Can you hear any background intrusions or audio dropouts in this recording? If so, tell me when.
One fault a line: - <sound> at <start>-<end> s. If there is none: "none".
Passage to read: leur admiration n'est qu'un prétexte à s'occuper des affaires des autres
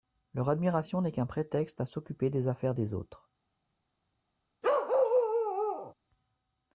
- bark at 4.6-5.9 s